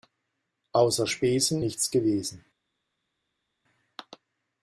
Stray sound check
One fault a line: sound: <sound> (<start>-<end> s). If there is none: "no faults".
no faults